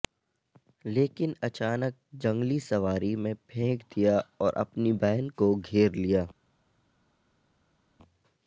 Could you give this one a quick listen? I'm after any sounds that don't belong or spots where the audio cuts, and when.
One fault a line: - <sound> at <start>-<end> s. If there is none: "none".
none